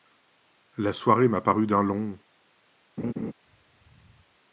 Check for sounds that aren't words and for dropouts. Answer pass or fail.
fail